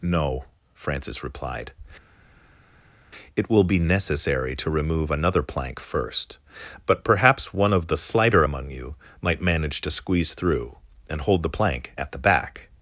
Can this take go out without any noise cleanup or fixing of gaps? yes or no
yes